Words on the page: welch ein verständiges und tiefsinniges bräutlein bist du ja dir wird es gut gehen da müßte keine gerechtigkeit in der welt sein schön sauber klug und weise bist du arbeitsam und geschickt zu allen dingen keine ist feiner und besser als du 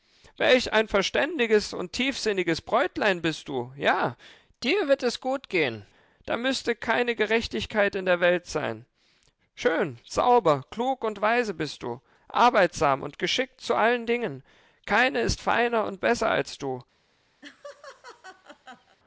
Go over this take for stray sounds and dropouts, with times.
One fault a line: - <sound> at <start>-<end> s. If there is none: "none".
- laugh at 17.4-19.0 s